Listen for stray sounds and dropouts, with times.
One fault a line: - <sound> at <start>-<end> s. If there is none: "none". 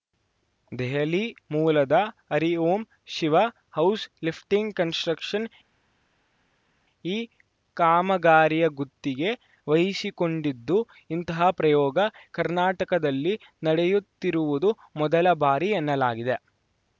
none